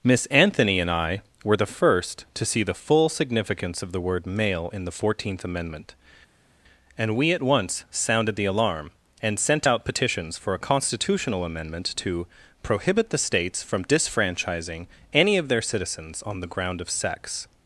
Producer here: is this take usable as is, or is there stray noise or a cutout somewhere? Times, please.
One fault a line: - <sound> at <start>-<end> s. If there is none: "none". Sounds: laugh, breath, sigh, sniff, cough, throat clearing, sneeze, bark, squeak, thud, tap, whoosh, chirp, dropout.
none